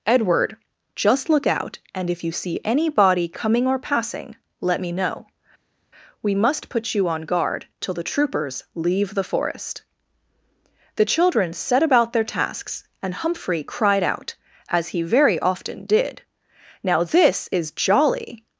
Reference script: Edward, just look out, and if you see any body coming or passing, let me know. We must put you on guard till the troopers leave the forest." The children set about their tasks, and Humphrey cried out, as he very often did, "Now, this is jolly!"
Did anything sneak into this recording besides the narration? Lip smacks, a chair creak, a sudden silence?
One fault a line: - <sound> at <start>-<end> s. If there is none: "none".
none